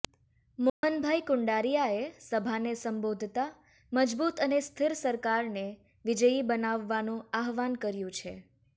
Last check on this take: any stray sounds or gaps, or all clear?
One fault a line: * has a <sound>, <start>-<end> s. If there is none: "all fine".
* has a dropout, 0.7-0.8 s